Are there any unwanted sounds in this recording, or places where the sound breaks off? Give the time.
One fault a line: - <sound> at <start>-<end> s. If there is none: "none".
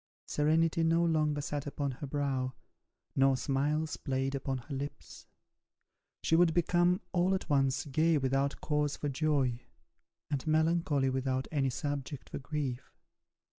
none